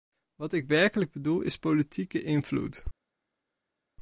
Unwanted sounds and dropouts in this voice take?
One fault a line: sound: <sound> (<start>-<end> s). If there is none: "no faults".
no faults